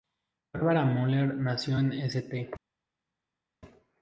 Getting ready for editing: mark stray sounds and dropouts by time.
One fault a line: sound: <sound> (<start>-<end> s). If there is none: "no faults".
no faults